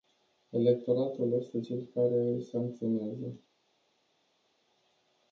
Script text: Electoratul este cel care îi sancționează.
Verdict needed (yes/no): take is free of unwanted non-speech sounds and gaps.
yes